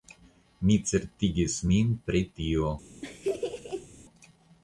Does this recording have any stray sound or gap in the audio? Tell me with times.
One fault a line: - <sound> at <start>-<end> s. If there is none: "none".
- laugh at 3.0-3.9 s